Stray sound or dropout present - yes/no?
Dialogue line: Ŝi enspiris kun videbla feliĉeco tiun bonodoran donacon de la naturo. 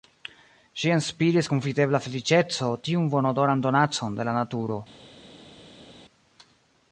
no